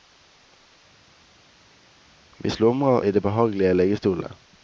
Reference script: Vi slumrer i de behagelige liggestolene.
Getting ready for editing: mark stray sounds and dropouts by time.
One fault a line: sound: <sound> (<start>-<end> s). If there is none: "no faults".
no faults